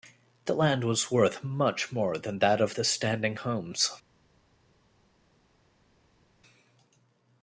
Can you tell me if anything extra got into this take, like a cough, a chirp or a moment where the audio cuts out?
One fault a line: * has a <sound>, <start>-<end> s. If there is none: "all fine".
all fine